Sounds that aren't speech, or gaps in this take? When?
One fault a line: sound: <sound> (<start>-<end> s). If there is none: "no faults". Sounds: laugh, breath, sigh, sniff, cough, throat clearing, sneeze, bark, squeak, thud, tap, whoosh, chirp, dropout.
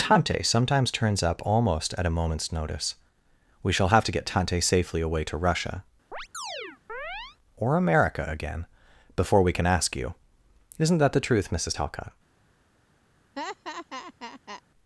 sound: chirp (6.1-7.4 s)
sound: laugh (13.4-14.6 s)